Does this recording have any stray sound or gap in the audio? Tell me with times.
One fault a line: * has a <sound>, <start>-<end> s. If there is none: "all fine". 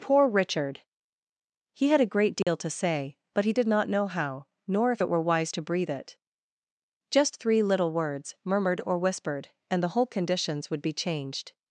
* has a dropout, 2.4-2.5 s